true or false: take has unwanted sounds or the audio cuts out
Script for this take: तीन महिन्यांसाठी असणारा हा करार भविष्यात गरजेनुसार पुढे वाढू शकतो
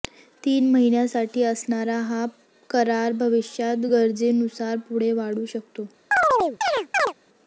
true